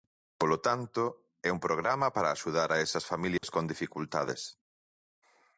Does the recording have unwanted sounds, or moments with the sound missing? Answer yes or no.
yes